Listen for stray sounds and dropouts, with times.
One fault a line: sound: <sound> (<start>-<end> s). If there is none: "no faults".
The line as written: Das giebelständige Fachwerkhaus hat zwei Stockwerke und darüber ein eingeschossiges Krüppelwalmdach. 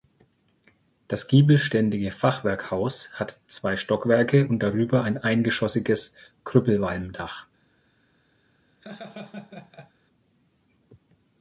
sound: laugh (8.8-9.9 s)